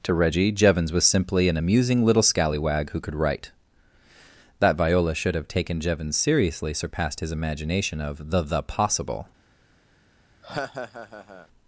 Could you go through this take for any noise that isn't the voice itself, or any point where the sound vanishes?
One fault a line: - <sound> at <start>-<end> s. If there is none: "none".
- laugh at 10.4-11.5 s